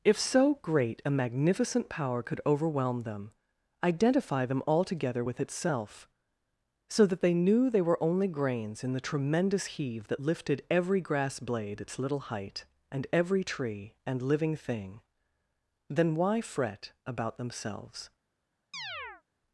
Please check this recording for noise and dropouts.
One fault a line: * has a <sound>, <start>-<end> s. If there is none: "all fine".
* has a chirp, 18.7-19.2 s